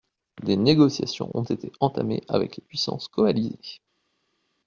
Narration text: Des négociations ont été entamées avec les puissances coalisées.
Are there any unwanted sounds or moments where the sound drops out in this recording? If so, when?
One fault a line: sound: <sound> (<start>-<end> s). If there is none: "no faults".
no faults